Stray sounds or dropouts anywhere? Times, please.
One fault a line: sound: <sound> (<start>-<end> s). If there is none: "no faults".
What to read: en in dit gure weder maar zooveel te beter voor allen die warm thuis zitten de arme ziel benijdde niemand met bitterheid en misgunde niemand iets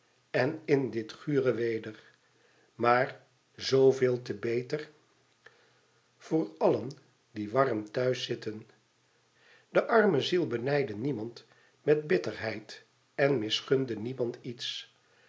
no faults